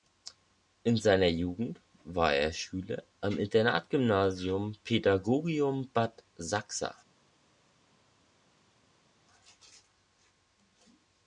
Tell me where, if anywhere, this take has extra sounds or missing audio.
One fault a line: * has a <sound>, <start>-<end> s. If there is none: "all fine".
all fine